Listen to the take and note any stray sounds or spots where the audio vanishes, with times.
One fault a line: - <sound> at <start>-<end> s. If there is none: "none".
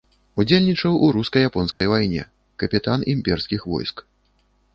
- dropout at 1.7-1.8 s